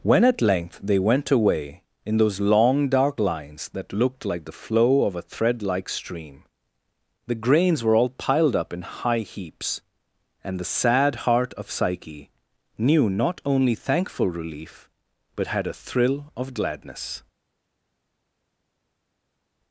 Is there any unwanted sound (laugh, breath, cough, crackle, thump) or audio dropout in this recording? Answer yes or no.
no